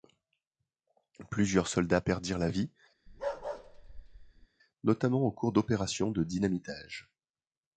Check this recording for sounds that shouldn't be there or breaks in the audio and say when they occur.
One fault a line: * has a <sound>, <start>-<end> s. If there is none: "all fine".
* has a bark, 3.1-4.5 s